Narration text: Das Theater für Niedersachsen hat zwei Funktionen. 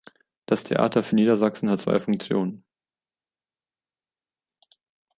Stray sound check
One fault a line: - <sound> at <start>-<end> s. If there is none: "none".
none